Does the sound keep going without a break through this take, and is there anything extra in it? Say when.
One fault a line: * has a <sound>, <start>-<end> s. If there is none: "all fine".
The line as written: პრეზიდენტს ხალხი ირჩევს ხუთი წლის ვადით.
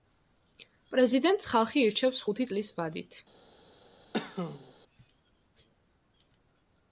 * has a cough, 4.1-4.7 s